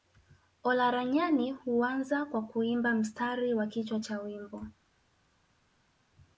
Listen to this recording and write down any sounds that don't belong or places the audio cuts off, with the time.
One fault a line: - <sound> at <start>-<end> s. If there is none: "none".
none